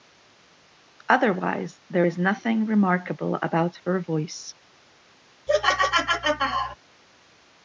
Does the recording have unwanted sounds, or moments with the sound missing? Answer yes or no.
yes